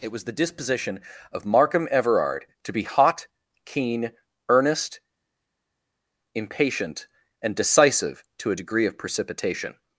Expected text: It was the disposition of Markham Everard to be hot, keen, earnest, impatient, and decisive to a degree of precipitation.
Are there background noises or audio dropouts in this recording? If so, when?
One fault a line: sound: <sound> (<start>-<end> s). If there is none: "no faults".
no faults